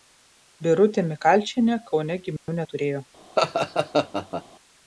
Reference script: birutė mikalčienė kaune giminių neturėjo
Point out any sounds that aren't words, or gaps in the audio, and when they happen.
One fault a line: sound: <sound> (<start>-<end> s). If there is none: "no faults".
sound: dropout (2.4-2.5 s)
sound: laugh (3.4-4.4 s)